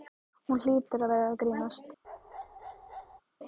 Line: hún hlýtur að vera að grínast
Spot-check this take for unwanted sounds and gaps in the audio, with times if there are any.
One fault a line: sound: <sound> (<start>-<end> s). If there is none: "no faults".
sound: bark (2.0-3.2 s)